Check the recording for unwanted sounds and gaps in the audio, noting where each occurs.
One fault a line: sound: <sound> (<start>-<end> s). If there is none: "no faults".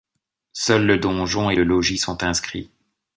no faults